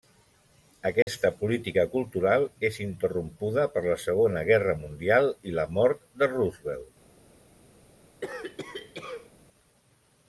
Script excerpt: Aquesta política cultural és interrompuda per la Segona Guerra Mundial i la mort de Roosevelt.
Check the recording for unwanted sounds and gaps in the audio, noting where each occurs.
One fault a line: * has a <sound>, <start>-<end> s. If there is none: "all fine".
* has a dropout, 1.0-1.1 s
* has a cough, 8.2-9.3 s